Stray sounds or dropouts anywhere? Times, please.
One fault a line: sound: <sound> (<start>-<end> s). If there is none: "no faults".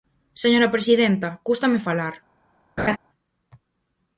sound: laugh (2.8-3.0 s)